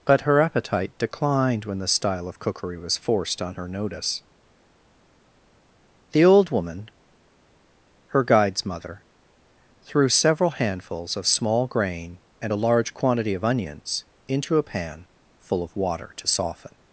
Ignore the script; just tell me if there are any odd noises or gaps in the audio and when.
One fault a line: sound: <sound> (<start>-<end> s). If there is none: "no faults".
no faults